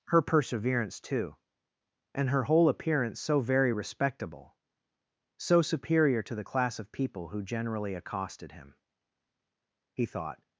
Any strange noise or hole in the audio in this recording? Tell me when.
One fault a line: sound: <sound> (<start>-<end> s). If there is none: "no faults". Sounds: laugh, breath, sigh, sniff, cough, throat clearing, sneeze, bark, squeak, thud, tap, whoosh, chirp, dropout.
no faults